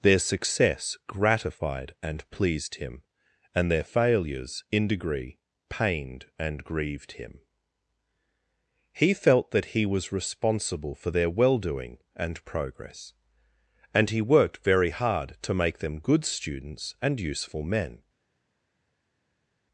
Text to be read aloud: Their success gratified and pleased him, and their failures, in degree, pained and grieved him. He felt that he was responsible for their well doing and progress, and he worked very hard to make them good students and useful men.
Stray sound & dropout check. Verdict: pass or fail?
pass